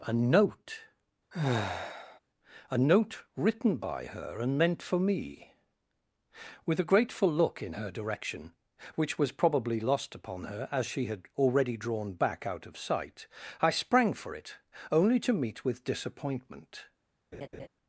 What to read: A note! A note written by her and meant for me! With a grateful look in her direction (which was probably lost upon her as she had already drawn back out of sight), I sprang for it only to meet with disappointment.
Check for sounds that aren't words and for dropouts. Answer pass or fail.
fail